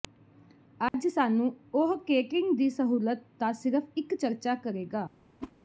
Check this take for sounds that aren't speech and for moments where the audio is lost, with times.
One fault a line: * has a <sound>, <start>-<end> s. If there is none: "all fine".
* has a dropout, 0.9-0.9 s
* has a whoosh, 5.4-5.5 s